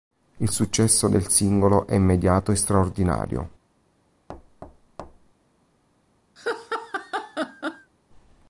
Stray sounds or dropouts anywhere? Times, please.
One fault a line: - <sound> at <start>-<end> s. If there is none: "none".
- thud at 4.3-5.3 s
- laugh at 6.4-7.9 s